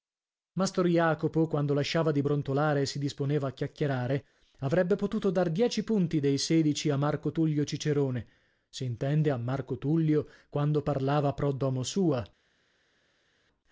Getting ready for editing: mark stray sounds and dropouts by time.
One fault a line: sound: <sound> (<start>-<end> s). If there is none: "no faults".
no faults